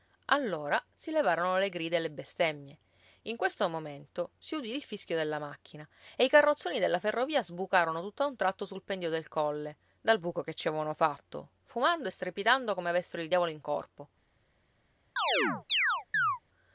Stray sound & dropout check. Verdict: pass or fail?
fail